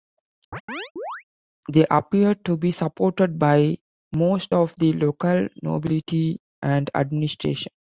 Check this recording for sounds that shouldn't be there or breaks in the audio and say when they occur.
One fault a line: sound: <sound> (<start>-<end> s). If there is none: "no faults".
sound: chirp (0.5-1.2 s)